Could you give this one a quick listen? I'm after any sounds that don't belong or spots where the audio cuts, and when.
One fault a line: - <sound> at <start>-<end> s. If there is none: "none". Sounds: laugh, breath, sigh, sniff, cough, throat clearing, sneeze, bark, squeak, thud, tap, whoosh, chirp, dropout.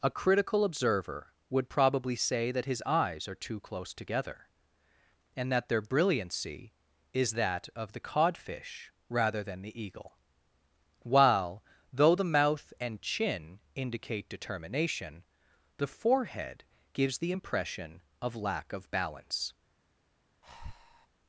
- breath at 20.4-21.1 s